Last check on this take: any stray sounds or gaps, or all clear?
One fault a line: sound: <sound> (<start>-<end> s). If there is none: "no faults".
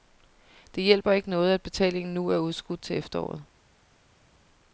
no faults